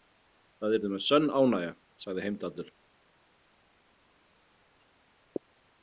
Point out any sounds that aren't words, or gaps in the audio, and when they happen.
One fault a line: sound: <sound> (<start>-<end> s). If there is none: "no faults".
no faults